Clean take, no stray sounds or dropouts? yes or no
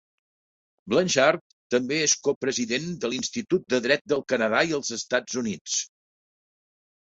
yes